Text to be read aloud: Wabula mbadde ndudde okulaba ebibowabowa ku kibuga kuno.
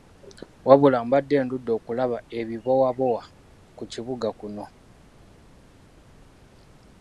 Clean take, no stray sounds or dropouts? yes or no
yes